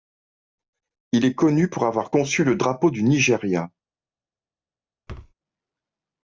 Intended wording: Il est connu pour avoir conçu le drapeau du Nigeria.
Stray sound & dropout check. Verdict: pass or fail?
fail